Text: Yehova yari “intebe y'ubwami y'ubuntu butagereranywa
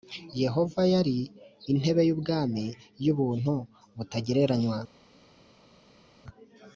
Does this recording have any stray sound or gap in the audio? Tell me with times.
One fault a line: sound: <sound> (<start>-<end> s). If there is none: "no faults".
no faults